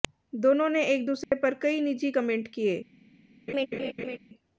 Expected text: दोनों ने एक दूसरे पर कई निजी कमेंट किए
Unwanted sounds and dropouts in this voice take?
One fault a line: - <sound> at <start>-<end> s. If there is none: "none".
- dropout at 1.2-1.3 s
- laugh at 3.5-4.2 s